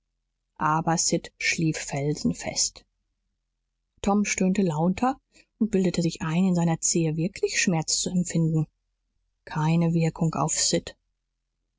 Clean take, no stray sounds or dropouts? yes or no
yes